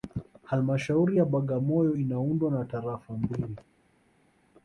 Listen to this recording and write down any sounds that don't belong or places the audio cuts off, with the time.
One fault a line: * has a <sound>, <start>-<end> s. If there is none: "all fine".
all fine